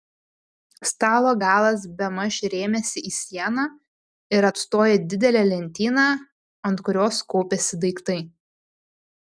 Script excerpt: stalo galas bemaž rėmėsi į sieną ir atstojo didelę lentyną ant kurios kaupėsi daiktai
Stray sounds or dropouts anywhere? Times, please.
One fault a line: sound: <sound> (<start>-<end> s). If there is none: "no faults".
no faults